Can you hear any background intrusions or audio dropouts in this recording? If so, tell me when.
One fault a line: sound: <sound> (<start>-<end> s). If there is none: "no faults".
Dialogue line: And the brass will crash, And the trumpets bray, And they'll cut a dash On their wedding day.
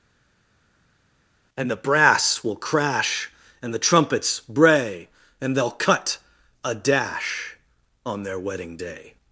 no faults